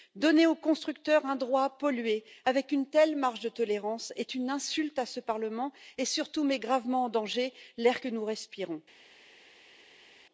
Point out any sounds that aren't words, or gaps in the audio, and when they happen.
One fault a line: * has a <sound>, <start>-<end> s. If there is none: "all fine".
all fine